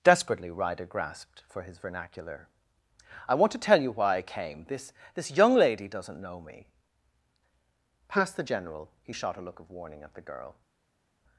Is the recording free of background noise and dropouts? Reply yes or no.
yes